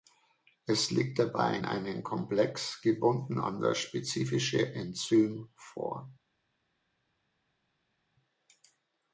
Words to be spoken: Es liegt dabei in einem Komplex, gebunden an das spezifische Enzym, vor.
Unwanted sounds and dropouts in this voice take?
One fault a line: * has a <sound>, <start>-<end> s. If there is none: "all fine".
all fine